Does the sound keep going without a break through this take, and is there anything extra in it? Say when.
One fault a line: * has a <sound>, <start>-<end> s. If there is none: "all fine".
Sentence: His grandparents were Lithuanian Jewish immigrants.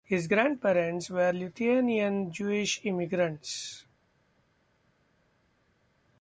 all fine